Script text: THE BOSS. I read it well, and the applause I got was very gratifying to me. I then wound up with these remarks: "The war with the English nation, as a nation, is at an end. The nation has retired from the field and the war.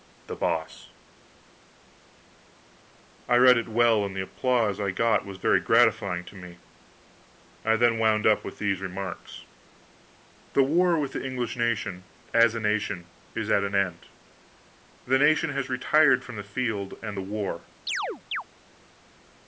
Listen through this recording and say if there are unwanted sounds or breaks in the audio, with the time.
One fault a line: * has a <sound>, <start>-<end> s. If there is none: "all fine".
* has a chirp, 17.9-18.4 s